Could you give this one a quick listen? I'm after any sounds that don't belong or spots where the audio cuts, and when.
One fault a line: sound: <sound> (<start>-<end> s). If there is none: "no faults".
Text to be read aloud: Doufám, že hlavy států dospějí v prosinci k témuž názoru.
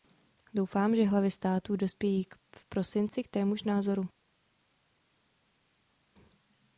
no faults